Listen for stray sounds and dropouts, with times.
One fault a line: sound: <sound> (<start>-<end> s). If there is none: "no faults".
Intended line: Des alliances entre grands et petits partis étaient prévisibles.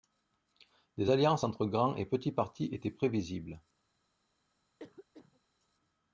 sound: cough (4.8-5.4 s)